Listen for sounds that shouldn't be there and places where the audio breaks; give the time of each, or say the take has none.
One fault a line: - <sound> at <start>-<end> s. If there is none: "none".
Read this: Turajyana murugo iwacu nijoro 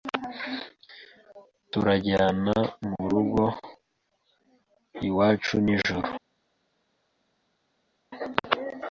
none